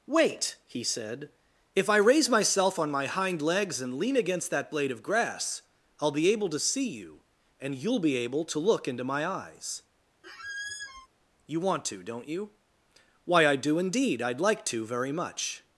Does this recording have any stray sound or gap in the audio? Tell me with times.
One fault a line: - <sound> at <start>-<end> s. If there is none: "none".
- squeak at 10.2-11.1 s